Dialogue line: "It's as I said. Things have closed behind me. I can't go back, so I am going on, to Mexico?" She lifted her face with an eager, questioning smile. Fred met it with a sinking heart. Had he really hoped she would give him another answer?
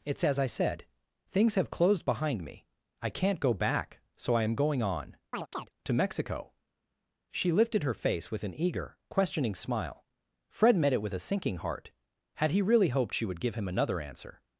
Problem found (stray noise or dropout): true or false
true